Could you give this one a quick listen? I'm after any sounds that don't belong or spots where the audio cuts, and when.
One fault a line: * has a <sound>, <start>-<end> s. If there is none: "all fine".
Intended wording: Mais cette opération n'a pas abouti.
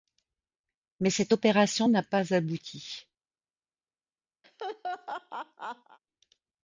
* has a laugh, 4.4-6.0 s